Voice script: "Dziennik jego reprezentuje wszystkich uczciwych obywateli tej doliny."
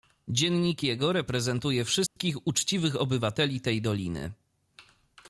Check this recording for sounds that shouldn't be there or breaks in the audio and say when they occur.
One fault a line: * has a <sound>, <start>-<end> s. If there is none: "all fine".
* has a dropout, 2.1-2.2 s